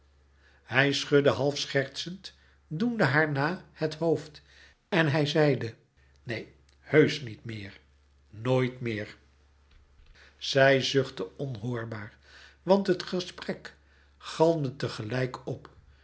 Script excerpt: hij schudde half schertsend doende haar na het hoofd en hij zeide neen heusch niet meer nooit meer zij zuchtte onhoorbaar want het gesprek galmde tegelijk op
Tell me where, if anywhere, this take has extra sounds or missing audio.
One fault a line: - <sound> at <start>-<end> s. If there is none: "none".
none